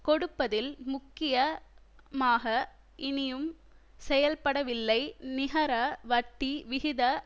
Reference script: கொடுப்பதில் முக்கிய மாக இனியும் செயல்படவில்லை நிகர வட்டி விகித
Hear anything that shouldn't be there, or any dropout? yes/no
no